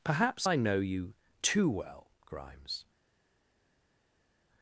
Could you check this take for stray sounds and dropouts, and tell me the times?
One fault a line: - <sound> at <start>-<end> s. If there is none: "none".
none